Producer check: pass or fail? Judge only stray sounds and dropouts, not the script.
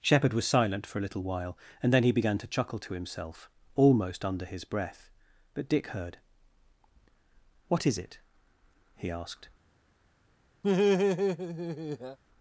fail